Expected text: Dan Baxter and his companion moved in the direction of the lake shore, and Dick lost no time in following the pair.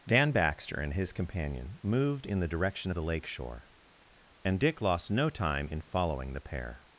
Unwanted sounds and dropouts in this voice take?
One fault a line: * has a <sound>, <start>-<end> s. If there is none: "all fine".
all fine